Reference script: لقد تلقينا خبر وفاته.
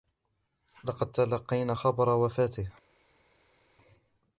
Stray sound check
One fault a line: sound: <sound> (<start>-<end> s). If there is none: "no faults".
no faults